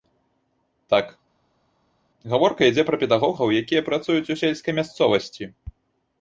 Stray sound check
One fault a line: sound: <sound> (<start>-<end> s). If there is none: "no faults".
no faults